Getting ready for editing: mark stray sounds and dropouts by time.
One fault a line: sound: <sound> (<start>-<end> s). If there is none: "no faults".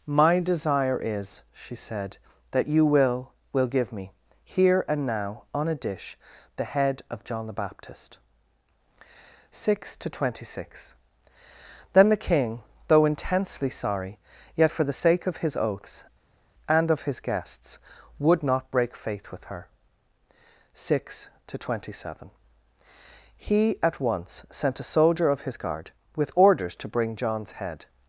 no faults